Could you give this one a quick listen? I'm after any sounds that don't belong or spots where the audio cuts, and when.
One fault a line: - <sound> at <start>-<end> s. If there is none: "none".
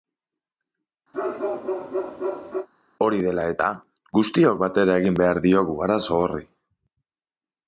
- bark at 1.1-2.7 s